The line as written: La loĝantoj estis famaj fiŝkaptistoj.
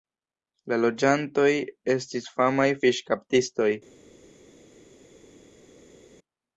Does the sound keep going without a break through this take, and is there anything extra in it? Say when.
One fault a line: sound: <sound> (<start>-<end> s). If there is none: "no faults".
no faults